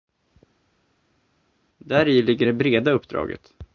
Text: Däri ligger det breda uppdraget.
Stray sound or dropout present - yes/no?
no